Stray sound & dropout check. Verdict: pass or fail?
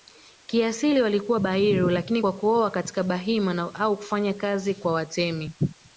pass